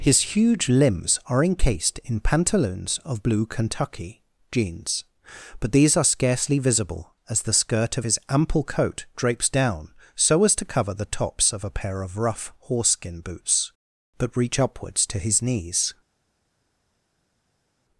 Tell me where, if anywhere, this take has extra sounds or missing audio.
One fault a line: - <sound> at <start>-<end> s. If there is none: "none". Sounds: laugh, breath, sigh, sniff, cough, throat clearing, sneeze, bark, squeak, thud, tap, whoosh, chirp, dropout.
none